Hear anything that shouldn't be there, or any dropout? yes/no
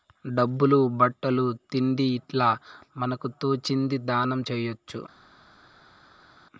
no